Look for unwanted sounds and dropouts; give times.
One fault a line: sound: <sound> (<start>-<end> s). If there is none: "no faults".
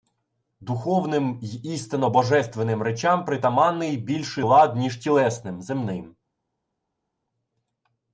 no faults